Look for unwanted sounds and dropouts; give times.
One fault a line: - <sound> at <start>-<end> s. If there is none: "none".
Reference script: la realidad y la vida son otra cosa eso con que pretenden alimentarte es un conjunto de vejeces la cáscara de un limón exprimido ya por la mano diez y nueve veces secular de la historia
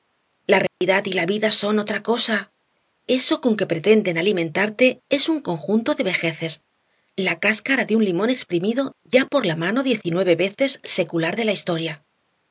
- dropout at 0.7-0.8 s